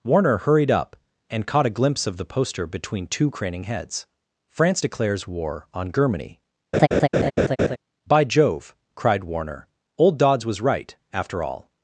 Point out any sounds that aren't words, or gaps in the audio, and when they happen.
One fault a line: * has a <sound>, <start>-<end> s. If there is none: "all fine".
* has a laugh, 6.7-7.8 s